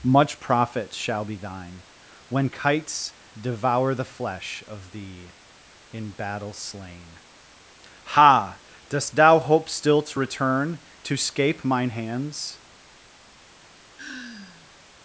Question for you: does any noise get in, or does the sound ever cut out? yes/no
yes